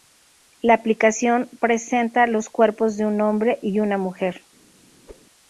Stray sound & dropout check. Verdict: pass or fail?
fail